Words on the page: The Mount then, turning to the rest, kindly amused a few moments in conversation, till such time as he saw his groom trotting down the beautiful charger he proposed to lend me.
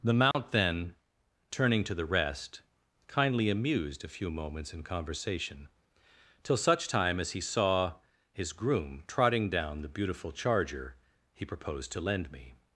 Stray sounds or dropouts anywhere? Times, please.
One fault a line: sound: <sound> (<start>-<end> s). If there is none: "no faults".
sound: dropout (0.3-0.3 s)